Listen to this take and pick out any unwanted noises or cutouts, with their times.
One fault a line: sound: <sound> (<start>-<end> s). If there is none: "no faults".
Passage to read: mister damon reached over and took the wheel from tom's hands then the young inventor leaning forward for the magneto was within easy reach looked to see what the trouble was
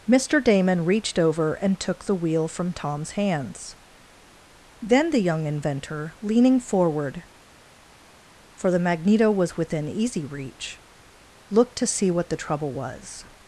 no faults